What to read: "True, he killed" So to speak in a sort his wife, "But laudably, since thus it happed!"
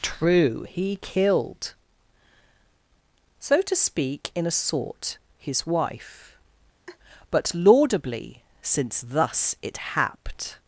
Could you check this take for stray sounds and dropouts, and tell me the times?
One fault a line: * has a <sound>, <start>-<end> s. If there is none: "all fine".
* has a laugh, 6.9-7.0 s